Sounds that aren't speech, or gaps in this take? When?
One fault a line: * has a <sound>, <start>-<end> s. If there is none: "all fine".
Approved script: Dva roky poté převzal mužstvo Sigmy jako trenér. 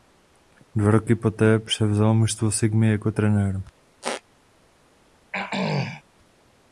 * has a squeak, 4.0-4.2 s
* has a throat clearing, 5.3-6.0 s